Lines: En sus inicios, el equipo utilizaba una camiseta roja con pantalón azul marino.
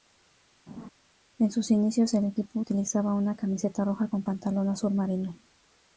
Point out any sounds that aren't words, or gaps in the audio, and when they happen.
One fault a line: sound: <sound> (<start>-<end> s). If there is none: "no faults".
sound: laugh (0.7-0.9 s)